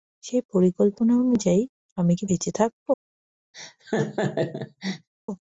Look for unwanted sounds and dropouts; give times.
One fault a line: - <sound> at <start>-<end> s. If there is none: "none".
- laugh at 3.5-5.1 s